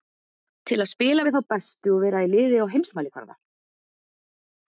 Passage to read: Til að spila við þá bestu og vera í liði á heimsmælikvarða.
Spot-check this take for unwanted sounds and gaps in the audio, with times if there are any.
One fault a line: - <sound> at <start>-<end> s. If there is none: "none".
none